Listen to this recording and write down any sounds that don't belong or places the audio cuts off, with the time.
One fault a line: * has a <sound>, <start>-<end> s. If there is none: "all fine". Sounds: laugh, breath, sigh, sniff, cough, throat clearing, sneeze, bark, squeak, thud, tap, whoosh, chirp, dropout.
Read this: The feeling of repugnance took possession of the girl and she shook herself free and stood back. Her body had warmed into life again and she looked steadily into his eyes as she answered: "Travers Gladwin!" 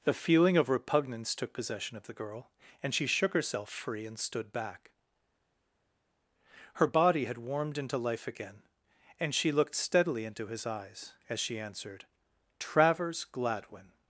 all fine